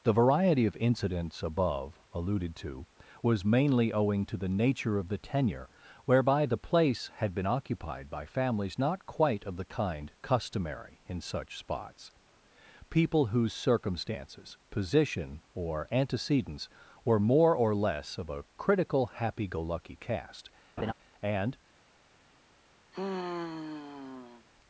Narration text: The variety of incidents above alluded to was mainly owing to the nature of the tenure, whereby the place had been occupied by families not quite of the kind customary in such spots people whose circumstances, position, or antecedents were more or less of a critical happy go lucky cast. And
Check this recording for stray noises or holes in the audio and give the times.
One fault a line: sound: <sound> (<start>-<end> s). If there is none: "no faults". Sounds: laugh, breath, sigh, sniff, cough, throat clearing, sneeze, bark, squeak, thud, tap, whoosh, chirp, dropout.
sound: laugh (20.8-20.9 s)
sound: sigh (22.9-24.5 s)